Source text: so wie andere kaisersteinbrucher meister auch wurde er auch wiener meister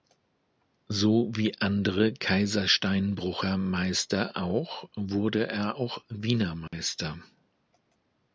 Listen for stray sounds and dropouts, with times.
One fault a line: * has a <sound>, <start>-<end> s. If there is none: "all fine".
* has a dropout, 6.7-6.7 s